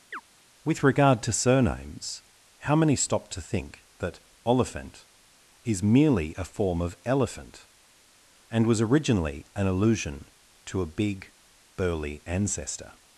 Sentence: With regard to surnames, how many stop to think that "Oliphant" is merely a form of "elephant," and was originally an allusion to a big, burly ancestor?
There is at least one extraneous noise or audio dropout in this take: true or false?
true